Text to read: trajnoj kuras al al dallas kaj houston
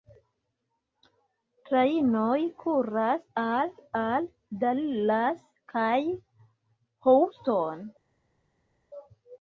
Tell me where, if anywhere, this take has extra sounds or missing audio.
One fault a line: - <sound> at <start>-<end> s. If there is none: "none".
none